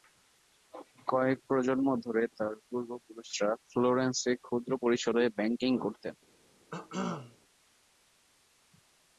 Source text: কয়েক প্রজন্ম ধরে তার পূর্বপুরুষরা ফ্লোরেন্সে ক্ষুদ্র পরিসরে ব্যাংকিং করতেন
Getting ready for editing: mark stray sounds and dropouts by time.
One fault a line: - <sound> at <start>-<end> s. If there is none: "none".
- cough at 6.7-7.4 s